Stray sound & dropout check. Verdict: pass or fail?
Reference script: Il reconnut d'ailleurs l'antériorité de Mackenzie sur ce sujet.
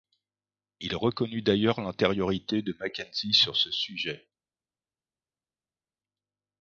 pass